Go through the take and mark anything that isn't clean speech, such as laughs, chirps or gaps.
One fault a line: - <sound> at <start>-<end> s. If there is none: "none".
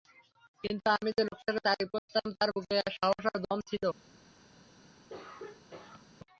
- dropout at 2.0-2.1 s
- throat clearing at 5.1-6.0 s